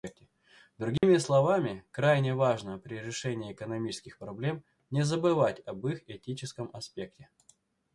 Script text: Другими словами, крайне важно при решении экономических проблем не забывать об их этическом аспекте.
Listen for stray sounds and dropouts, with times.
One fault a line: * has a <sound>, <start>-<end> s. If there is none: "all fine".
* has a dropout, 1.0-1.0 s